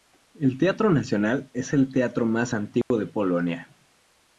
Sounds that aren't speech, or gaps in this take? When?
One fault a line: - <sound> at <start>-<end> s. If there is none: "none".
- dropout at 2.8-2.9 s